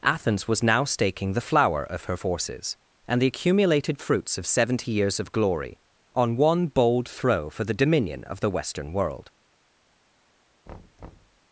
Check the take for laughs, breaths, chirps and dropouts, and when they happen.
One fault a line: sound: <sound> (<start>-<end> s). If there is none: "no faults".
sound: thud (10.7-11.4 s)